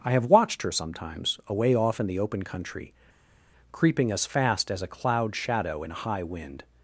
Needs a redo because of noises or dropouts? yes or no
no